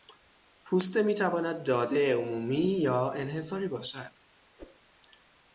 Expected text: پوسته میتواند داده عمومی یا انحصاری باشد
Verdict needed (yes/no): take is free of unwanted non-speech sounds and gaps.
no